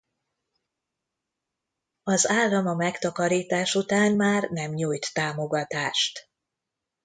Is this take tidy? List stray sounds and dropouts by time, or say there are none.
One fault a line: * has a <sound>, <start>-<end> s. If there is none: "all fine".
all fine